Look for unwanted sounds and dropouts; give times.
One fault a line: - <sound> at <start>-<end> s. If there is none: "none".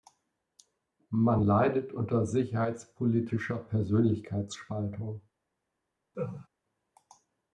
- laugh at 6.1-6.5 s